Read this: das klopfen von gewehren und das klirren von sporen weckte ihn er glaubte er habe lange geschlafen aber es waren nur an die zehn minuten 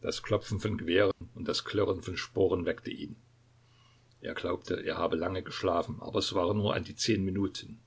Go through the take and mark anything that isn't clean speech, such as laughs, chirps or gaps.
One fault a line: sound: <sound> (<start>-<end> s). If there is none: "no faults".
sound: dropout (1.1-1.2 s)